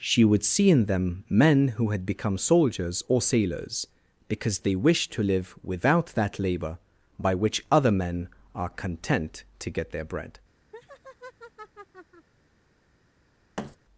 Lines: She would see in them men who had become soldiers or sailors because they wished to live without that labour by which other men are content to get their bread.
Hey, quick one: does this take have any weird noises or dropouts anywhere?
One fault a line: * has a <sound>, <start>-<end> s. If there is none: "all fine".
* has a laugh, 10.7-12.3 s
* has a thud, 13.6-13.8 s